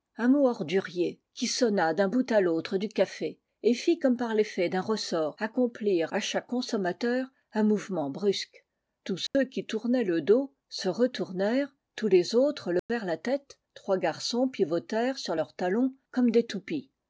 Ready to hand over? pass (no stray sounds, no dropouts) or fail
fail